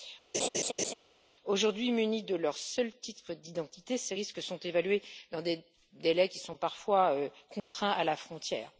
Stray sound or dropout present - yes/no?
yes